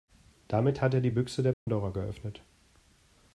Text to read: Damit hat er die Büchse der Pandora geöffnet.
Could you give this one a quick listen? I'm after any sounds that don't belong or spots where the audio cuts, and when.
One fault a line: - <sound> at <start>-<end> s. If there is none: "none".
- dropout at 1.5-1.7 s